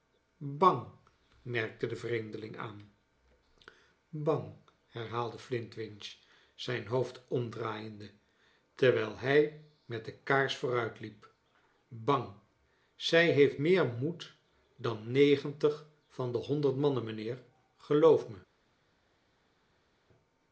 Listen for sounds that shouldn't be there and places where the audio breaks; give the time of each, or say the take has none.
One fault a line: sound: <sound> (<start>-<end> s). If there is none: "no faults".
no faults